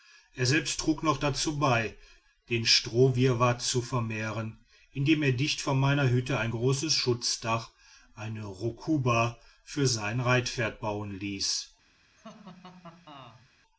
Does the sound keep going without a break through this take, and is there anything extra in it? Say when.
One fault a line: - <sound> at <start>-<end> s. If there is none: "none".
- laugh at 12.2-13.5 s